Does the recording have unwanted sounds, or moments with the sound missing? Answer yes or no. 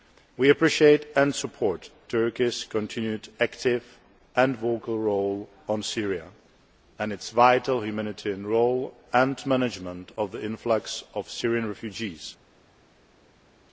no